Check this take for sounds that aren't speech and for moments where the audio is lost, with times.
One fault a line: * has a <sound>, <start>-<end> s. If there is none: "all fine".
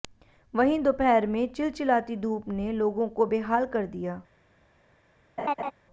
* has a laugh, 5.4-5.7 s